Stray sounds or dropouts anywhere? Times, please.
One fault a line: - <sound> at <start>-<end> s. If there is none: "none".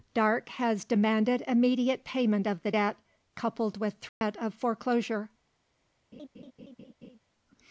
- dropout at 4.1-4.2 s
- laugh at 6.1-7.2 s